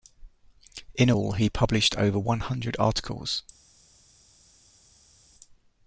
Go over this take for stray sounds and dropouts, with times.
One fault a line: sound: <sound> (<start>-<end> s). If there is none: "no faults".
no faults